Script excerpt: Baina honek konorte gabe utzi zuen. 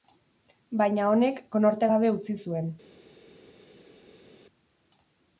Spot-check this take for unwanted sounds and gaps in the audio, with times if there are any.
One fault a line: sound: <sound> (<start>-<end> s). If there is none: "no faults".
no faults